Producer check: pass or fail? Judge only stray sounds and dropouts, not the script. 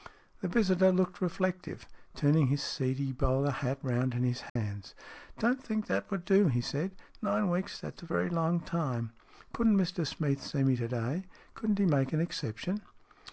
fail